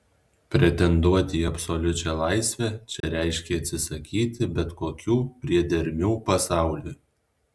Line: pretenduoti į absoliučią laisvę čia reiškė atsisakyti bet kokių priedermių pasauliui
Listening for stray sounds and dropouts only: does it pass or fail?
fail